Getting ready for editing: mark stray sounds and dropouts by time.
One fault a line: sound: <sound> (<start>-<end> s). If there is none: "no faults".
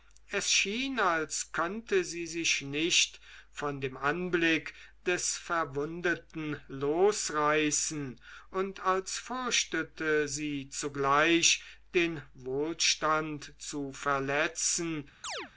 sound: chirp (15.2-15.5 s)